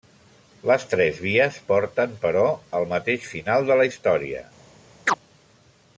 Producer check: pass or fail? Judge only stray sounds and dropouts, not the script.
fail